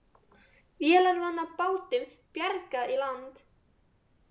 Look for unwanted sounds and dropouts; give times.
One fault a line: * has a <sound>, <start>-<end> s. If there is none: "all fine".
all fine